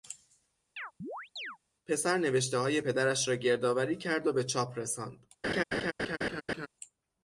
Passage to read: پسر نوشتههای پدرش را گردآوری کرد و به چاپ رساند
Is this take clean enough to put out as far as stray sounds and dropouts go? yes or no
no